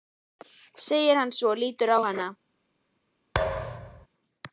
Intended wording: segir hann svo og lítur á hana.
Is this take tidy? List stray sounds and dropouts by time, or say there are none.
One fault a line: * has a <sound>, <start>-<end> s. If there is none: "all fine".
* has a thud, 3.3-4.1 s